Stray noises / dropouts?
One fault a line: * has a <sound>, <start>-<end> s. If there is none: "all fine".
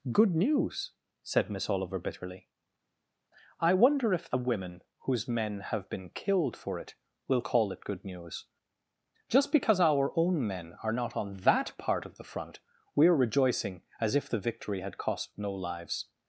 all fine